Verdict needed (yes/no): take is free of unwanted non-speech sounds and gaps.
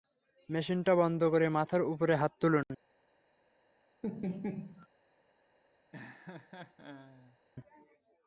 no